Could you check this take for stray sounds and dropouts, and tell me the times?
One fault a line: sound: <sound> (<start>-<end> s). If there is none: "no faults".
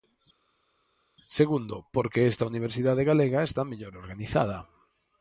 no faults